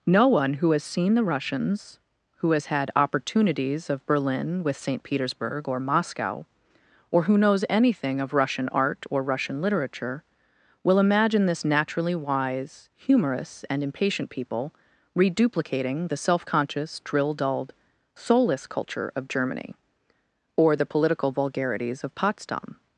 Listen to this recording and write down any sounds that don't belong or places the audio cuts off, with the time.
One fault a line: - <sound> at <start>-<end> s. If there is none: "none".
none